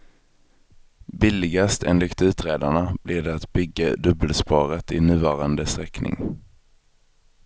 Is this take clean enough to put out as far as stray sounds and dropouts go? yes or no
yes